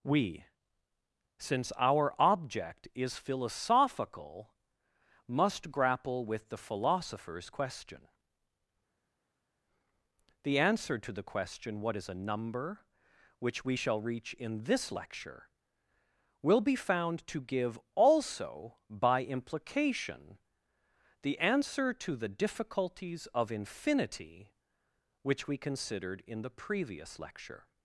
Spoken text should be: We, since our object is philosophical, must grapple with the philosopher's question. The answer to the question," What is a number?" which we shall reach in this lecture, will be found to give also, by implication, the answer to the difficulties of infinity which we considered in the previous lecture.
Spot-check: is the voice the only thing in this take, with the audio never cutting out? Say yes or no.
yes